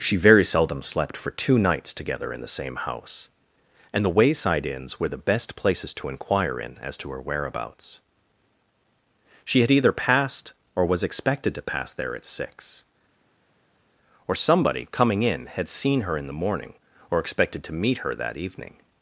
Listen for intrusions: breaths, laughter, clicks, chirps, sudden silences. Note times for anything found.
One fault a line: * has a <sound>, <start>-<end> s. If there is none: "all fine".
all fine